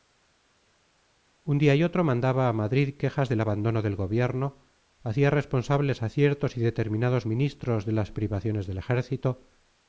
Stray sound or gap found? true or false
false